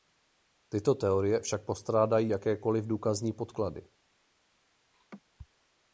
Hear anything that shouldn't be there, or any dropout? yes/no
yes